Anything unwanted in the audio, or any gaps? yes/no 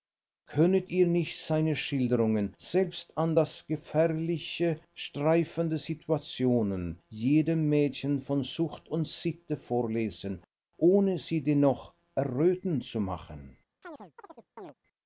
yes